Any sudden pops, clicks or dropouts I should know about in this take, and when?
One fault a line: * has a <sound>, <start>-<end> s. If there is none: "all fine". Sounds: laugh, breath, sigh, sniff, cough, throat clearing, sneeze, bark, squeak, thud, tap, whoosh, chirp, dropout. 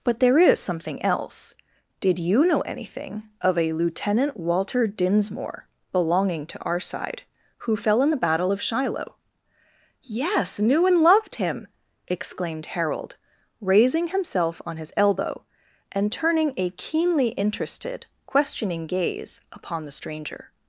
all fine